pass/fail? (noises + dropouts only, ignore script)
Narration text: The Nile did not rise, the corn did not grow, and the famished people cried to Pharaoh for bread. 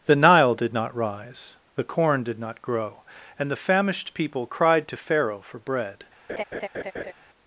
fail